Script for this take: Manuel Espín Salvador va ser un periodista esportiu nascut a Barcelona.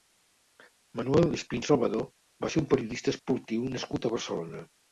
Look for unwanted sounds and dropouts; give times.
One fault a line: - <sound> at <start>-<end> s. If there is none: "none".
none